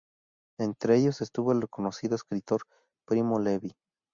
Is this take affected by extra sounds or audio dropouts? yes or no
no